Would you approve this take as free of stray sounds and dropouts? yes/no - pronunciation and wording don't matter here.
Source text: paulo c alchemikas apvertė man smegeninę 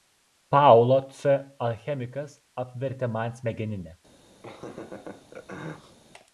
no